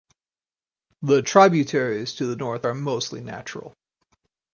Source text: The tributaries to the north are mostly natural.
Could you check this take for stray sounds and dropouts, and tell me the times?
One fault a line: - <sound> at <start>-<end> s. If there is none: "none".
none